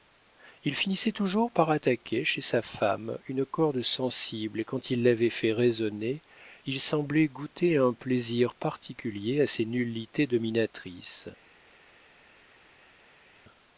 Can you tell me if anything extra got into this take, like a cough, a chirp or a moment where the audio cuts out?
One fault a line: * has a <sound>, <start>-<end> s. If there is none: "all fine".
all fine